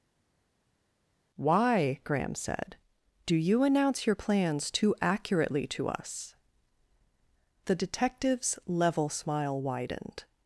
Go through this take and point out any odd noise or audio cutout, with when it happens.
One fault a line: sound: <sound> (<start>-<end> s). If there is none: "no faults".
no faults